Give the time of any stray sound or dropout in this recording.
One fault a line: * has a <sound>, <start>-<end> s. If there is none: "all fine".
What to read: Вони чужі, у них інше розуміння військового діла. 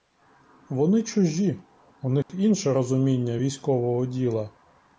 * has a dropout, 2.2-2.3 s